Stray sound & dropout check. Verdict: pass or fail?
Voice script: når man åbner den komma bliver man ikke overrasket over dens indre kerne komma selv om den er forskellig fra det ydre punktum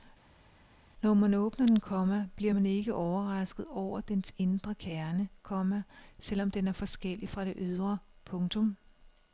pass